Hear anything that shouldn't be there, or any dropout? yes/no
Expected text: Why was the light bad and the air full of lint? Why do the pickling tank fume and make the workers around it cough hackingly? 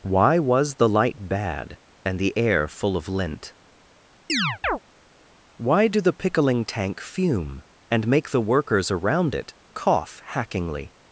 yes